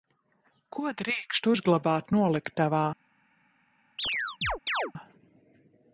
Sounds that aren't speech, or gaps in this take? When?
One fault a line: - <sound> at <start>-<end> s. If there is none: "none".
- chirp at 4.0-4.9 s